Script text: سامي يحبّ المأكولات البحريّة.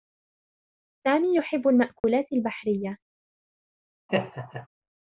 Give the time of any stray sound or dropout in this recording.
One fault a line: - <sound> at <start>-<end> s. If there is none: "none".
- dropout at 2.0-2.0 s
- laugh at 4.1-4.7 s